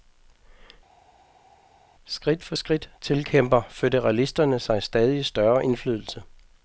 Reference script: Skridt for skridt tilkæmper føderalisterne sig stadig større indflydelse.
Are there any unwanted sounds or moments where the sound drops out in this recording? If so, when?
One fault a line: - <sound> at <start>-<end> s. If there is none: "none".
none